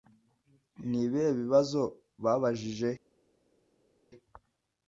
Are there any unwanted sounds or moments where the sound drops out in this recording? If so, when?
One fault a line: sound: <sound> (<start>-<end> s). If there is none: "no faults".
no faults